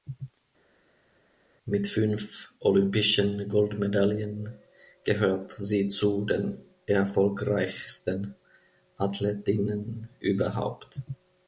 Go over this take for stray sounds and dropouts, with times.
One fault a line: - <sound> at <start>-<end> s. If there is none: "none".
none